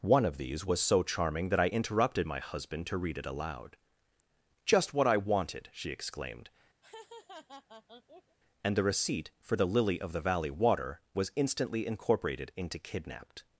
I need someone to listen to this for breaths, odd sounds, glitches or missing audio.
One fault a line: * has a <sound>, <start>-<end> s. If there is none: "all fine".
* has a laugh, 6.8-8.4 s